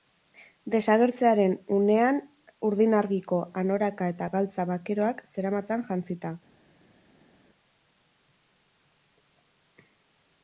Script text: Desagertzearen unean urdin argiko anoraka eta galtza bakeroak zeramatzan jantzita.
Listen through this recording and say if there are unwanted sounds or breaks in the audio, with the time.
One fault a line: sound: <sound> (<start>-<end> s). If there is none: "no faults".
no faults